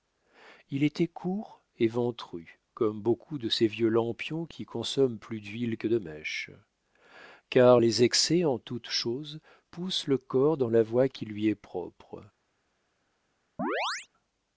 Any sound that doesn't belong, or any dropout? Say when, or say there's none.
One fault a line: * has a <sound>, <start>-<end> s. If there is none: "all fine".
* has a chirp, 13.6-14.1 s